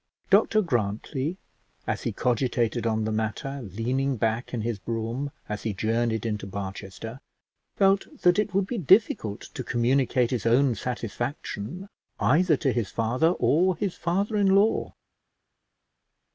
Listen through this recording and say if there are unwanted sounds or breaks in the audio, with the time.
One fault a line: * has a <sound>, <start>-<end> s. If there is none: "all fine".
all fine